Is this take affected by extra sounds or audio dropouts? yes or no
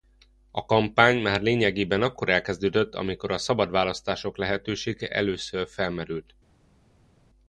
no